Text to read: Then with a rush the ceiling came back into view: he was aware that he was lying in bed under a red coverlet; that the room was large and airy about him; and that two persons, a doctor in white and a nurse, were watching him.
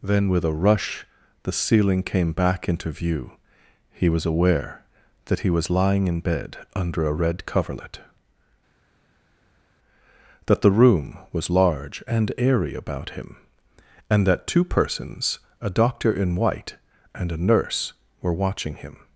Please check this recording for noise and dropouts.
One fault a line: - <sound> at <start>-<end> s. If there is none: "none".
none